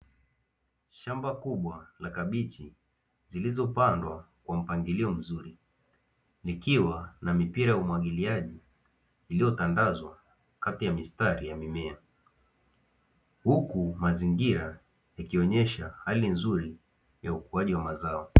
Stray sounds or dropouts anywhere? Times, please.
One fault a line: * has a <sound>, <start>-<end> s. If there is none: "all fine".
all fine